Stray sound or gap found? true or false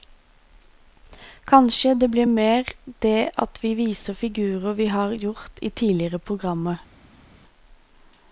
false